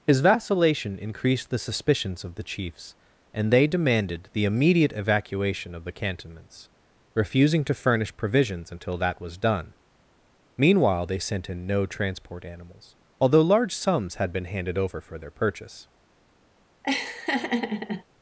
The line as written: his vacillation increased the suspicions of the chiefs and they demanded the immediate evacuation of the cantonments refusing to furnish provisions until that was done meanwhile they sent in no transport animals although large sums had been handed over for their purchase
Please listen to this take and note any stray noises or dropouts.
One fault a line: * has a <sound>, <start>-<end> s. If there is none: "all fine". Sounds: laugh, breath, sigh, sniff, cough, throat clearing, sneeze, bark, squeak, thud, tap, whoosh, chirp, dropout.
* has a laugh, 16.8-18.0 s